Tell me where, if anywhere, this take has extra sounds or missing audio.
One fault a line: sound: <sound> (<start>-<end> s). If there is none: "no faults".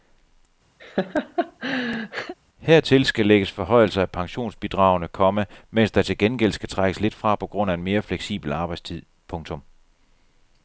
sound: laugh (0.8-2.3 s)